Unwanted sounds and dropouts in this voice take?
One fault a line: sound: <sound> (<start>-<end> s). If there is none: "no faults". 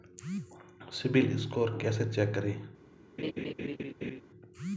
sound: laugh (3.2-4.2 s)